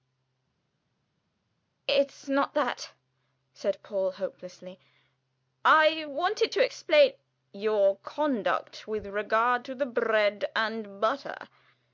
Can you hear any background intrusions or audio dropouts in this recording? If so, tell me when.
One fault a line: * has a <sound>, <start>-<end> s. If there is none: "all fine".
all fine